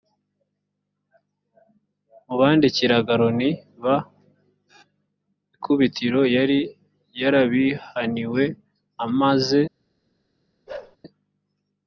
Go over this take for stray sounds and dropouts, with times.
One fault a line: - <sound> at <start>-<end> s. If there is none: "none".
- bark at 10.7-11.0 s